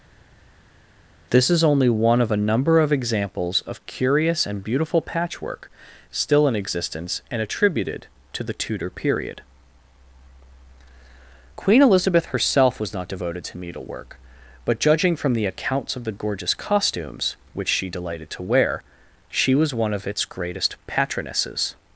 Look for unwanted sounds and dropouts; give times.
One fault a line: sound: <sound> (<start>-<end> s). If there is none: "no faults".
no faults